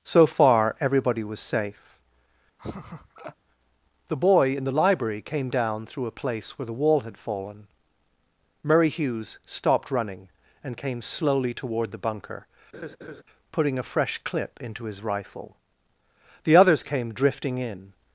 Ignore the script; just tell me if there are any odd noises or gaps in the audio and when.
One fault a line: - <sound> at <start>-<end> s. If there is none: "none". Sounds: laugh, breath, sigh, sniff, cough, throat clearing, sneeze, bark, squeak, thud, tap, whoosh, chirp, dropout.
- laugh at 2.6-3.4 s
- laugh at 12.7-13.2 s